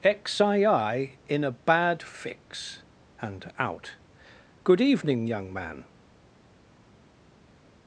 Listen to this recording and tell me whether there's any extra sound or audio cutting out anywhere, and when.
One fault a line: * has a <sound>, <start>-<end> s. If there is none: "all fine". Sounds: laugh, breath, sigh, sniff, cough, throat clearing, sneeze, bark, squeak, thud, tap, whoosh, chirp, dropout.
all fine